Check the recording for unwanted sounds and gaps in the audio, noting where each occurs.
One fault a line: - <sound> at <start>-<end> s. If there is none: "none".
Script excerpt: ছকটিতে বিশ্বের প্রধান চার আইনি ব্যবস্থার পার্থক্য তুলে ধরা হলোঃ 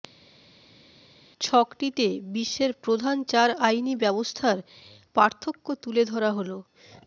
none